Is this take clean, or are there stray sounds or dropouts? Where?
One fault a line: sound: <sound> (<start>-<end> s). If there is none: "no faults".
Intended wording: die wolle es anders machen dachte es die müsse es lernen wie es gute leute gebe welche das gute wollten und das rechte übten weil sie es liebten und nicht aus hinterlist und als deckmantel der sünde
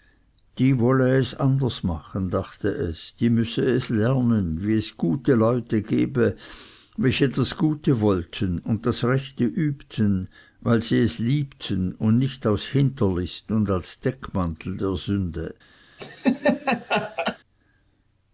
sound: laugh (16.0-17.4 s)